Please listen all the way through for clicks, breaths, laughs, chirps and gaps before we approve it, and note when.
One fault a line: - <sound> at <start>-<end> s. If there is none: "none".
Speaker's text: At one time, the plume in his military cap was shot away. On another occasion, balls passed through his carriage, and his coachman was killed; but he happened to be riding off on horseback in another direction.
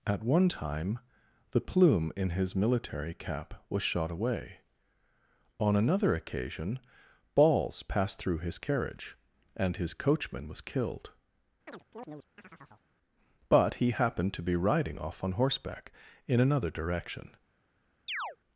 - chirp at 11.7-12.9 s
- chirp at 18.1-18.4 s